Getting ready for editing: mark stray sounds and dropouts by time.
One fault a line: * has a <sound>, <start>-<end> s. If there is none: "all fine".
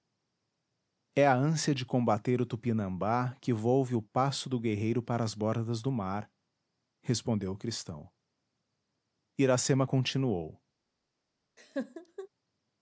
* has a laugh, 11.6-12.3 s